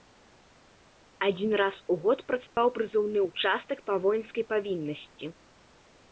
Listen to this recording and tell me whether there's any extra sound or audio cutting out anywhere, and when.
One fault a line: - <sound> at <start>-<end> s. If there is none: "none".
- dropout at 2.5-2.6 s